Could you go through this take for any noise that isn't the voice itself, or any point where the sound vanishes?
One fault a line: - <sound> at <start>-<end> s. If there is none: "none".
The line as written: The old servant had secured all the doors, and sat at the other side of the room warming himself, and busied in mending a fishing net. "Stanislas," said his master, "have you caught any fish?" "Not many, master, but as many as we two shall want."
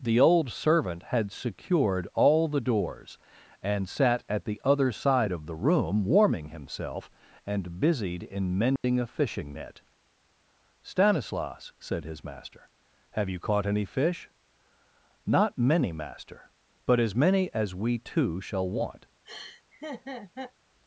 - dropout at 8.8-8.8 s
- laugh at 19.3-20.5 s